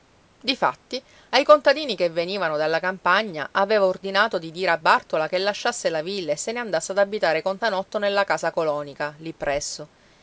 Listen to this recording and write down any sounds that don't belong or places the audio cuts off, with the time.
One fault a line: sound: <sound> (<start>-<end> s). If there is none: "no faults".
no faults